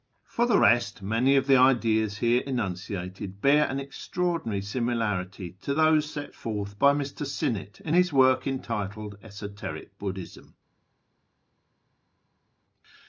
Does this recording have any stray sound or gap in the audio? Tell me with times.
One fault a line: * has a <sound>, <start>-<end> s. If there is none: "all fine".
all fine